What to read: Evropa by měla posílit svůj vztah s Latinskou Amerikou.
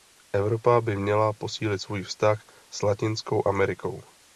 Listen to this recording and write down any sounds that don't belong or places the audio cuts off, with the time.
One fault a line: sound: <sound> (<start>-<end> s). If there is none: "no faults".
no faults